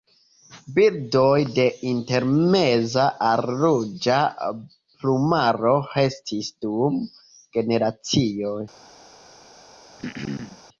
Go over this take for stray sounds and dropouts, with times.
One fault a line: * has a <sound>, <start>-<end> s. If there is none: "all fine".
* has a throat clearing, 10.0-10.6 s